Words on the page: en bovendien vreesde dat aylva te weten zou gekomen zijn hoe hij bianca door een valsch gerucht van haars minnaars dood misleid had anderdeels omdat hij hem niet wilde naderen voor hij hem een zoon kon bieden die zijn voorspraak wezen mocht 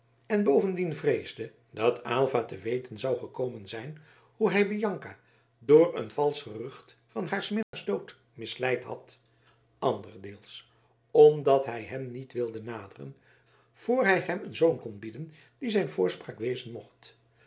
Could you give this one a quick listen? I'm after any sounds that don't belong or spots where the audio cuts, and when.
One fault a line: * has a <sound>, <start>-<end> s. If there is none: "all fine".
* has a dropout, 7.6-7.7 s